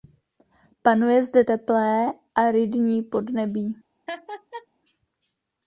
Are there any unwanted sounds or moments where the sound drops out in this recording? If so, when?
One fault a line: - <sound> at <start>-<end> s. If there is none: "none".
- laugh at 4.1-4.7 s